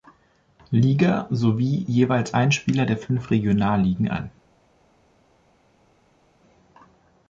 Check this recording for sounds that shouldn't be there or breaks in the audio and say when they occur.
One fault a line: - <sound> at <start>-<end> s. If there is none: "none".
none